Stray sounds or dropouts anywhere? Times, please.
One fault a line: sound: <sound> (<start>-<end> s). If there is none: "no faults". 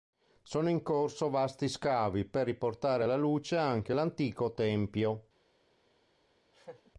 sound: laugh (6.5-6.9 s)